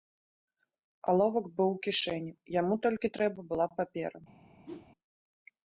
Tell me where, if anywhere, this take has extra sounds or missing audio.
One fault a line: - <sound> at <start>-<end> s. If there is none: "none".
- whoosh at 4.6-4.9 s